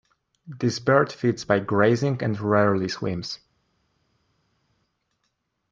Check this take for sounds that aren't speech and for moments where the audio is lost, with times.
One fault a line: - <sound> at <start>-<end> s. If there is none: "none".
none